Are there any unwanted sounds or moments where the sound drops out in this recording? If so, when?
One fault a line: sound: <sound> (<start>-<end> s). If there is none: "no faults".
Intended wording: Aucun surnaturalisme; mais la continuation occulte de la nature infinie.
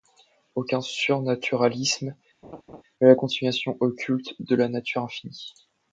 sound: laugh (2.4-2.8 s)